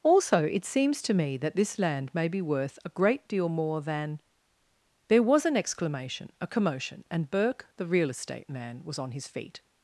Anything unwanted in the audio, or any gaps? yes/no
no